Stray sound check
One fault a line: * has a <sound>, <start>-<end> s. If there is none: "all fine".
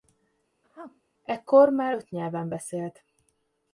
* has a sneeze, 0.6-1.0 s